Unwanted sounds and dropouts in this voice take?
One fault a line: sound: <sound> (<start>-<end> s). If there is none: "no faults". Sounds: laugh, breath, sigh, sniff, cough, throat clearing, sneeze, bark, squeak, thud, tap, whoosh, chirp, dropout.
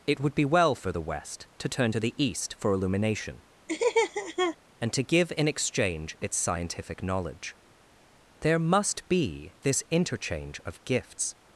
sound: laugh (3.7-4.6 s)